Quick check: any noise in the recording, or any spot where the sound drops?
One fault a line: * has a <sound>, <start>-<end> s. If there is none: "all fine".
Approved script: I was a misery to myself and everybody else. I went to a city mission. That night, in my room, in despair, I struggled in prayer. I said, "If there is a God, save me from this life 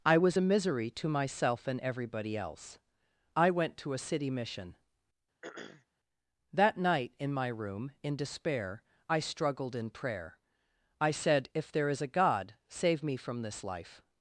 * has a throat clearing, 5.4-5.9 s